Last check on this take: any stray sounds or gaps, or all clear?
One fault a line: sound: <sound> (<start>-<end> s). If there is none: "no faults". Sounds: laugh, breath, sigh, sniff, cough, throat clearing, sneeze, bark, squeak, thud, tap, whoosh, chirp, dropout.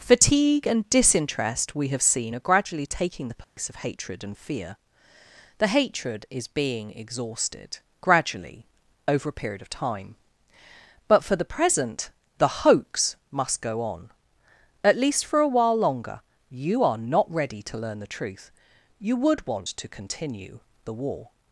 sound: dropout (3.4-3.6 s)